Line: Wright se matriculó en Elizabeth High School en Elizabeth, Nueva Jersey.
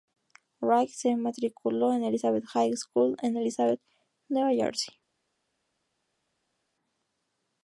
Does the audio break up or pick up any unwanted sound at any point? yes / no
no